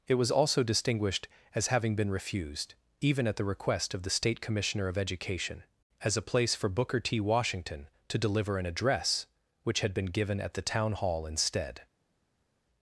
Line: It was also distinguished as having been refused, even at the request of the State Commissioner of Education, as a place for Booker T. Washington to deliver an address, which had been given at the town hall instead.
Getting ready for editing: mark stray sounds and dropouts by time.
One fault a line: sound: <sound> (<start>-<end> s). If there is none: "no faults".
no faults